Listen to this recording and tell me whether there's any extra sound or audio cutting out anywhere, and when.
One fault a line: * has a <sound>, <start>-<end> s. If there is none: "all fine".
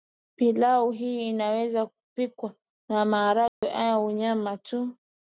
* has a dropout, 3.5-3.6 s